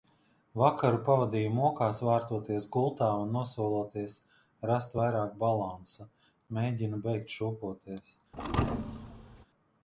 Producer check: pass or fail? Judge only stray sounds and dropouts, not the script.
fail